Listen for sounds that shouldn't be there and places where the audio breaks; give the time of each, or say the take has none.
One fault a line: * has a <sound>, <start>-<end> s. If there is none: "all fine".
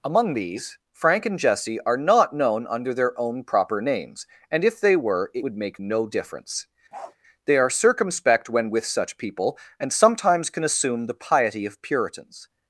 * has a bark, 6.9-7.2 s